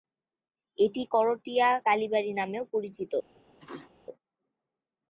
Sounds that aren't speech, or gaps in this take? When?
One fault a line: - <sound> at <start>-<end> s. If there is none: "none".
- sneeze at 3.6-3.9 s